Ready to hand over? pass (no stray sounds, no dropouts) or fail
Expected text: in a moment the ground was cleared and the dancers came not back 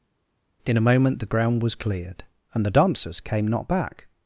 pass